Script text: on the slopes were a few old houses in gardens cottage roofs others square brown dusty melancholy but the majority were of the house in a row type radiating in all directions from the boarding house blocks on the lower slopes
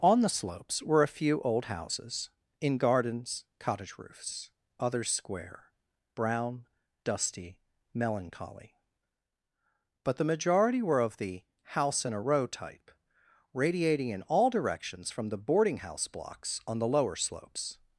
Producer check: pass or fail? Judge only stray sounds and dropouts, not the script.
pass